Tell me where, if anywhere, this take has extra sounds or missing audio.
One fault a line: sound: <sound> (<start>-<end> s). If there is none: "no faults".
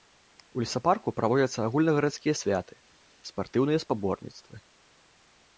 no faults